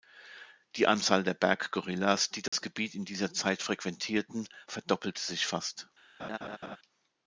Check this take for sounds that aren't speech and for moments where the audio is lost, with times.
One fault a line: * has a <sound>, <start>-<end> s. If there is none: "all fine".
* has a dropout, 2.5-2.5 s
* has a laugh, 6.2-6.8 s